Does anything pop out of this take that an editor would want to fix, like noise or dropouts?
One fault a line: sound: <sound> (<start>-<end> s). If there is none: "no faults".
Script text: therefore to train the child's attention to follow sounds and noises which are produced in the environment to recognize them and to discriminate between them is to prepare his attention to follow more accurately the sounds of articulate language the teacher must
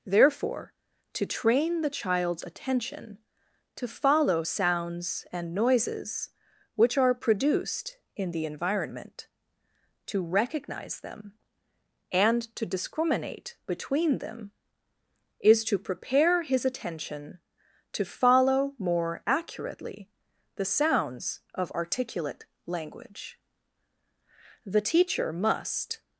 no faults